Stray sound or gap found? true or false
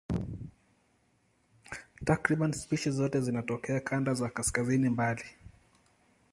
false